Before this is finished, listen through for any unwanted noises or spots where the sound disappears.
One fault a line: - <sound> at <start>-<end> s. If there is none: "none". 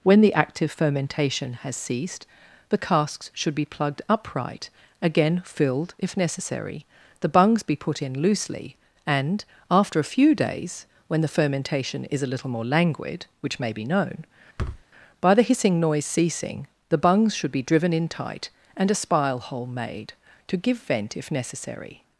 - thud at 14.6-14.8 s